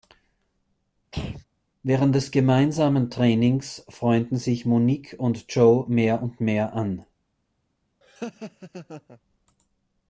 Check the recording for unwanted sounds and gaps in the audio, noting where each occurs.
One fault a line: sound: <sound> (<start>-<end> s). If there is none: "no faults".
sound: throat clearing (1.1-1.4 s)
sound: laugh (8.0-9.2 s)